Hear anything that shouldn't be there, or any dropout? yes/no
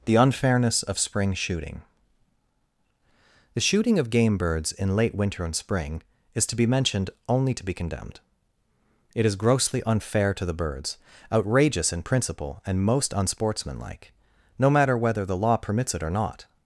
no